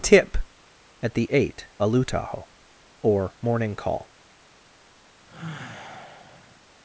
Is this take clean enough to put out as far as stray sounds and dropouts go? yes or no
no